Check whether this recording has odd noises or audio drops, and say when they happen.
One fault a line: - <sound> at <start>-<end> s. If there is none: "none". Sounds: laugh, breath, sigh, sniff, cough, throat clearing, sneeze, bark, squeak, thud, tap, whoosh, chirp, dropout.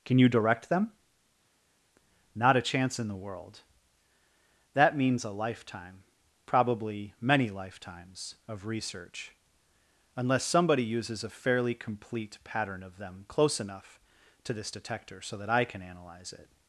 none